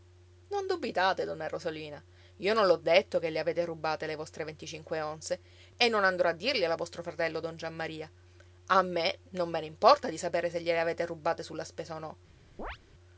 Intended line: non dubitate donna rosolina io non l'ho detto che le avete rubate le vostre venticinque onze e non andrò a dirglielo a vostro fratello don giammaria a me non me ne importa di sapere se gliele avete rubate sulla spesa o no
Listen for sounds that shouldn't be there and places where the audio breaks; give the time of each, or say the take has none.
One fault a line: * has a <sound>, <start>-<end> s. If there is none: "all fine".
* has a chirp, 12.6-12.8 s